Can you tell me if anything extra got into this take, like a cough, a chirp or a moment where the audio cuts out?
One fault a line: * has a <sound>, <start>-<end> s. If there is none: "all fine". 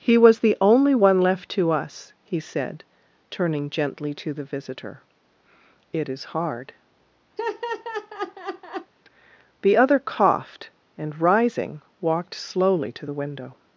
* has a laugh, 7.4-8.9 s